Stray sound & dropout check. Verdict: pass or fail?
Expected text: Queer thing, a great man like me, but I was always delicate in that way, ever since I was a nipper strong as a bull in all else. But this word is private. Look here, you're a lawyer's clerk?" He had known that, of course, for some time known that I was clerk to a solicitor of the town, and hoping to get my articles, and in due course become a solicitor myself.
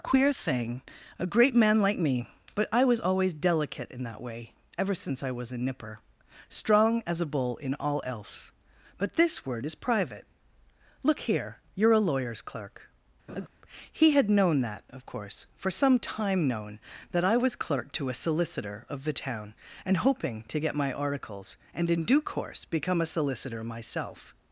fail